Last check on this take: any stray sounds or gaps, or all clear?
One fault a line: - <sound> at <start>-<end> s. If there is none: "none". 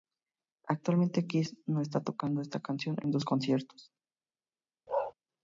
- bark at 4.9-5.1 s